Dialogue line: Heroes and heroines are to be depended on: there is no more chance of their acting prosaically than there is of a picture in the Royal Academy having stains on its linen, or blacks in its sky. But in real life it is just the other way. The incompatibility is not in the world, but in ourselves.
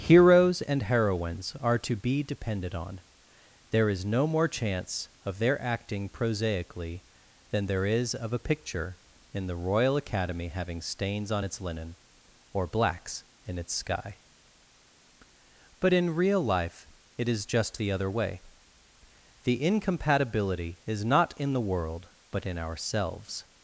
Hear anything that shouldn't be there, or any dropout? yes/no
no